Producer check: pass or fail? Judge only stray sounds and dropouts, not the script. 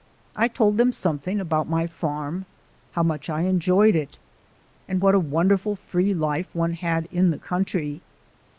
pass